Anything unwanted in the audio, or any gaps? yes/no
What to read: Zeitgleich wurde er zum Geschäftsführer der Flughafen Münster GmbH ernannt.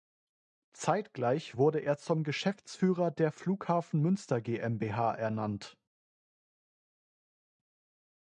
no